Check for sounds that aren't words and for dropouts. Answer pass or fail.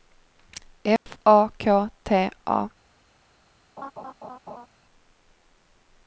fail